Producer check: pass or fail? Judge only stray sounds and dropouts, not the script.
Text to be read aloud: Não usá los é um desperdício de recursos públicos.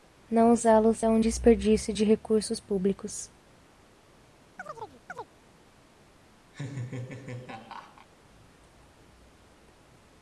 fail